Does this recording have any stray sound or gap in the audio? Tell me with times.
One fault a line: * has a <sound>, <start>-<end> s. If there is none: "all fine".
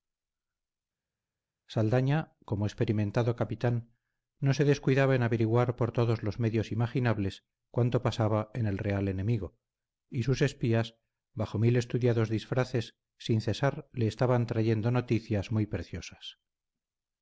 all fine